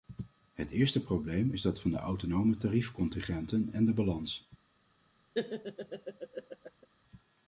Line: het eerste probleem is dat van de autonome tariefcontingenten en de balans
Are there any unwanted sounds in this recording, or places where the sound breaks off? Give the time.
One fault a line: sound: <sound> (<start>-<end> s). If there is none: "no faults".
sound: laugh (5.3-6.9 s)